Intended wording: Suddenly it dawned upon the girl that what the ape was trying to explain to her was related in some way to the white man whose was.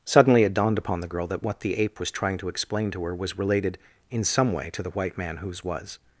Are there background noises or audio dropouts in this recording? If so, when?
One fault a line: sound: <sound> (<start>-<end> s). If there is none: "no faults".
no faults